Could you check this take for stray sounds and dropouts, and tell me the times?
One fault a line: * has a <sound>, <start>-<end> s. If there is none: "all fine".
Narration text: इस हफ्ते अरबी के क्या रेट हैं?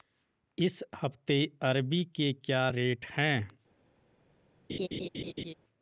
* has a laugh, 4.7-5.5 s